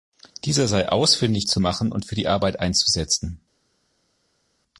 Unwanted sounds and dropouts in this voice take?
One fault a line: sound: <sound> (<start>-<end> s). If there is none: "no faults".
no faults